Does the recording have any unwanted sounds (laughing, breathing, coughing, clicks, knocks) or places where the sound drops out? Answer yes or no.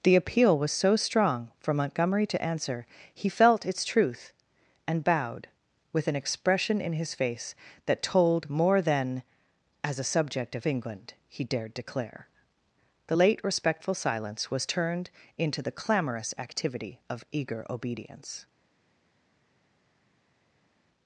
no